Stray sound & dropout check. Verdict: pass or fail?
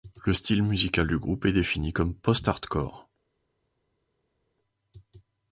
pass